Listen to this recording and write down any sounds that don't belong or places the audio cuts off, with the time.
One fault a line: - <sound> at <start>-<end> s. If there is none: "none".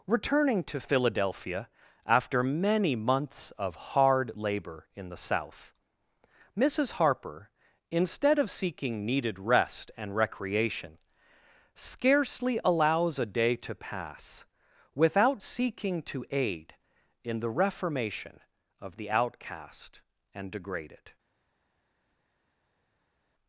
none